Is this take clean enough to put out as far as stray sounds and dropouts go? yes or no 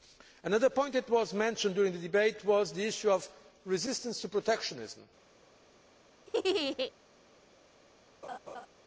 no